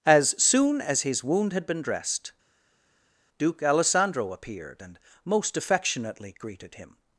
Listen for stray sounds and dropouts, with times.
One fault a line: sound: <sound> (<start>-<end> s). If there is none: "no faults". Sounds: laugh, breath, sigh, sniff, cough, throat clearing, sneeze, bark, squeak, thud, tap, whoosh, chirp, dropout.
no faults